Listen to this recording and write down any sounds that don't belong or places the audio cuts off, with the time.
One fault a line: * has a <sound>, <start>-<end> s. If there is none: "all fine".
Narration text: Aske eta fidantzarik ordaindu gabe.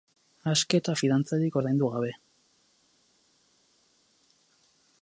all fine